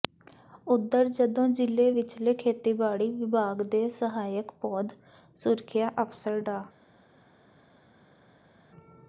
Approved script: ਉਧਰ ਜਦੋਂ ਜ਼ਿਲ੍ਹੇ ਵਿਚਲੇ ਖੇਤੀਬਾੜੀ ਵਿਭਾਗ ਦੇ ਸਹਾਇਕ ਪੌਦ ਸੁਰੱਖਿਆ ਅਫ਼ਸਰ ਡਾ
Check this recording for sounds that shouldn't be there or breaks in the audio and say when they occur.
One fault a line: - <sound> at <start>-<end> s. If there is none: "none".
none